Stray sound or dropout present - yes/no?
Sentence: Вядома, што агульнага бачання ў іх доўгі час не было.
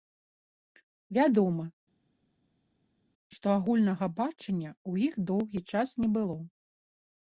no